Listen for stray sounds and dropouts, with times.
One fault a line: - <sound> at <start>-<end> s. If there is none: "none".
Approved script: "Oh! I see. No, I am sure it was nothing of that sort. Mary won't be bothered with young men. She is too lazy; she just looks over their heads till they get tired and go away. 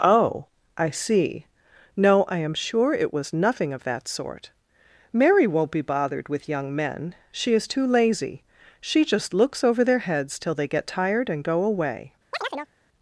- chirp at 12.3-12.7 s